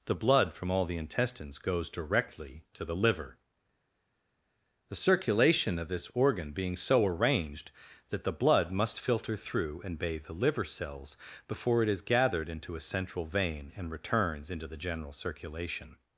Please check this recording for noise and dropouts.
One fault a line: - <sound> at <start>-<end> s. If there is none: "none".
none